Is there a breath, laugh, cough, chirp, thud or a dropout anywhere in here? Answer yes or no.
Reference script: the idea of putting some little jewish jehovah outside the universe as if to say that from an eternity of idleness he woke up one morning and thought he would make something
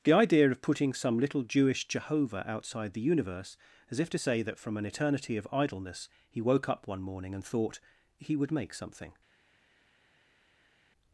no